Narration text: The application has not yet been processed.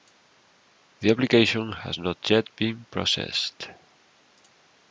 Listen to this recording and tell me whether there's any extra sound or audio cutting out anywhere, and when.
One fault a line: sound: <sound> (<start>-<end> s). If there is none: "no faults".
no faults